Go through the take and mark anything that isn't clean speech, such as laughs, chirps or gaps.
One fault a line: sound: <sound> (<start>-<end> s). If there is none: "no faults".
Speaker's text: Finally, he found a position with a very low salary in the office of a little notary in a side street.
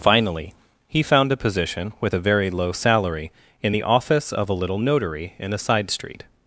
no faults